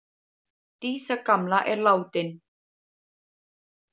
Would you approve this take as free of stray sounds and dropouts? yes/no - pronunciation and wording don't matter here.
yes